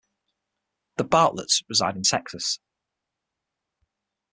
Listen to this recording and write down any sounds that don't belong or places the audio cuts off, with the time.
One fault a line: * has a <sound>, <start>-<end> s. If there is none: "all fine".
all fine